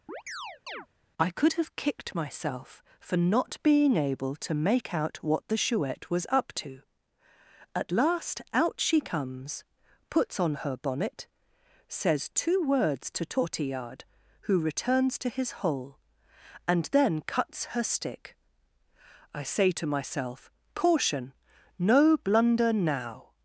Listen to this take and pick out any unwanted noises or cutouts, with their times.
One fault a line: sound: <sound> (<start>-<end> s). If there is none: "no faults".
sound: chirp (0.1-0.9 s)